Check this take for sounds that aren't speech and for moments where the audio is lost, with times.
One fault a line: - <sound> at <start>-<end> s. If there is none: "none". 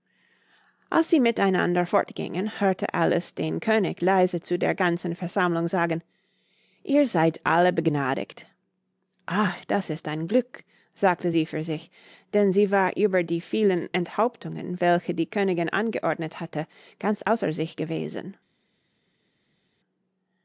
none